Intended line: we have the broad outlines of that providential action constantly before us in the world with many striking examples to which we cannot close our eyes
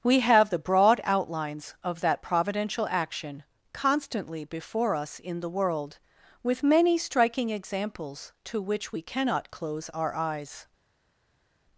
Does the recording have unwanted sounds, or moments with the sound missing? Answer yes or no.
no